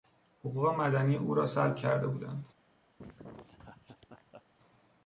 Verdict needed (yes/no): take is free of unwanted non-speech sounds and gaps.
no